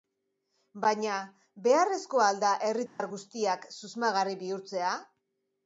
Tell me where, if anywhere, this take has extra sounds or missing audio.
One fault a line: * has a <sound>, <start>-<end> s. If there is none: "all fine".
* has a dropout, 2.9-3.0 s